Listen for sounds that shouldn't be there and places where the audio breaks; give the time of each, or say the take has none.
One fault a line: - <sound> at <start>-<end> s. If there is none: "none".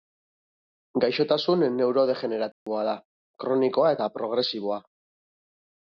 - dropout at 2.5-2.7 s